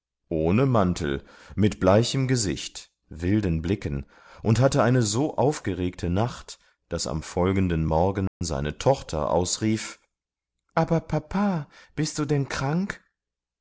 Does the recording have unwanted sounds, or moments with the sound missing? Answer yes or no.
yes